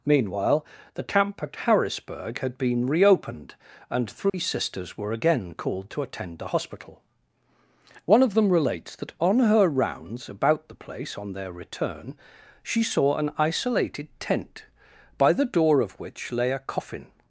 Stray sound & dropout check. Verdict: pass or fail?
fail